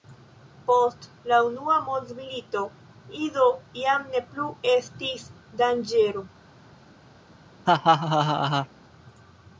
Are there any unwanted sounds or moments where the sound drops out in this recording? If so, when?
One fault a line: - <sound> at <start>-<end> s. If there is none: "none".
- laugh at 7.7-8.7 s